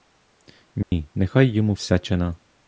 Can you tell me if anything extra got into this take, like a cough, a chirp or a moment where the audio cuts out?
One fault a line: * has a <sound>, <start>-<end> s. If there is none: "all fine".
* has a dropout, 0.8-0.9 s